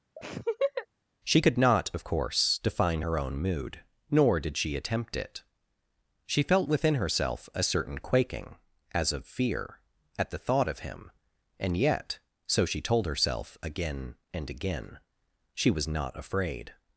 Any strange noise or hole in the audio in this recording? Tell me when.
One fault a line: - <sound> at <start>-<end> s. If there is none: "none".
- laugh at 0.2-0.9 s